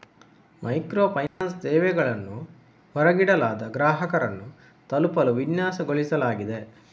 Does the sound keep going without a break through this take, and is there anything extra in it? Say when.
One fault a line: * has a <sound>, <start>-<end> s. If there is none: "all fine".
* has a dropout, 1.3-1.4 s